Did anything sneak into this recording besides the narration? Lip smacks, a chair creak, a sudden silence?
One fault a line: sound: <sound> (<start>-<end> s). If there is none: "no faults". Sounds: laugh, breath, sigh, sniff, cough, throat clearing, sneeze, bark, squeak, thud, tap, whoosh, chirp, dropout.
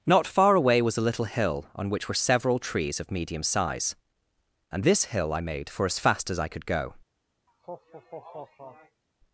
sound: laugh (7.5-9.0 s)